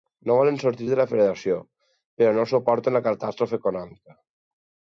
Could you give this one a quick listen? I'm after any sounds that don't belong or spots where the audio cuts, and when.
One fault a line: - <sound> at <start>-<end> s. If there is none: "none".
none